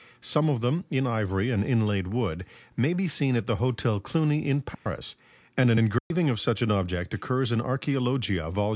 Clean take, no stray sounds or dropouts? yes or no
no